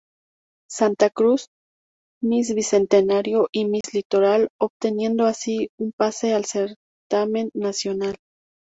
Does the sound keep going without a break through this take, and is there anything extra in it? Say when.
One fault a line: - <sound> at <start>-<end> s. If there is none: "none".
- dropout at 3.8-3.8 s